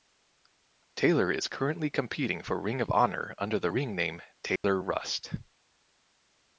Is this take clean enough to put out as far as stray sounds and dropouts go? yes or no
no